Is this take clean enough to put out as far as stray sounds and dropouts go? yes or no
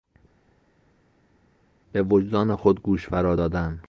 yes